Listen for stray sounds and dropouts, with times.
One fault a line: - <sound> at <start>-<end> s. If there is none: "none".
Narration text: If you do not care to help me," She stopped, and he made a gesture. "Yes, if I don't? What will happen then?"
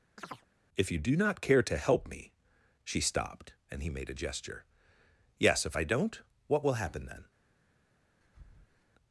- chirp at 0.2-0.5 s
- breath at 8.2-8.8 s